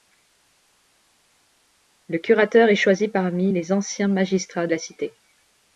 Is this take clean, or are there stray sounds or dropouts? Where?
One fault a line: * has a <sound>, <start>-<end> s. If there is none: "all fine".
all fine